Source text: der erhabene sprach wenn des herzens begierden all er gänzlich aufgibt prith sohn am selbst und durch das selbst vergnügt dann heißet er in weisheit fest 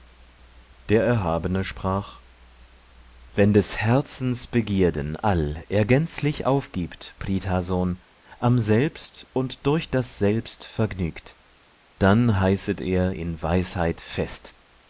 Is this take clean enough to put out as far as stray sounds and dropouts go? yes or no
yes